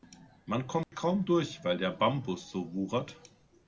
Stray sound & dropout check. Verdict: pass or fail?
fail